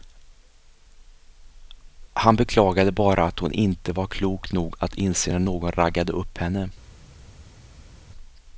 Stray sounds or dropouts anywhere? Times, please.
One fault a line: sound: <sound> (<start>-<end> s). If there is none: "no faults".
no faults